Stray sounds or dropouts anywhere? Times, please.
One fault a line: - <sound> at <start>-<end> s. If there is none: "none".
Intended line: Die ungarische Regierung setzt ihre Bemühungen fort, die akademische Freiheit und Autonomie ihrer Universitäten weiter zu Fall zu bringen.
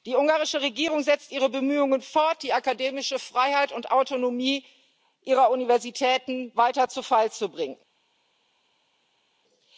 none